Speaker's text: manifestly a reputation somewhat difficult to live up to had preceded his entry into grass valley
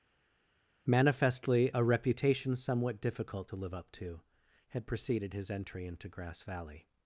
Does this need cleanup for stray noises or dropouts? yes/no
no